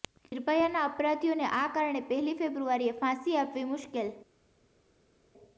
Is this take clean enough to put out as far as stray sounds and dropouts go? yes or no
yes